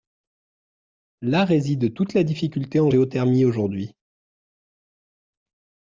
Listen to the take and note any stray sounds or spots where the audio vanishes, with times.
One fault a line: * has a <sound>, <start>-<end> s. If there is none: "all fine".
all fine